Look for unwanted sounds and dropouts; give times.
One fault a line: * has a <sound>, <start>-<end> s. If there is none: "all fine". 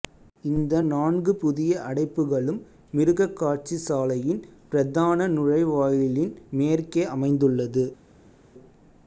all fine